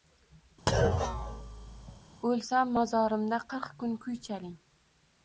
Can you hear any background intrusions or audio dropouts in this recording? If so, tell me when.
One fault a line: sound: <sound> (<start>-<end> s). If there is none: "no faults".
sound: thud (0.7-2.0 s)